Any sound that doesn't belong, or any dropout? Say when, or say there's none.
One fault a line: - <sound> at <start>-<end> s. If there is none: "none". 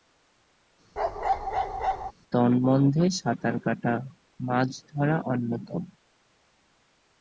- bark at 1.0-2.1 s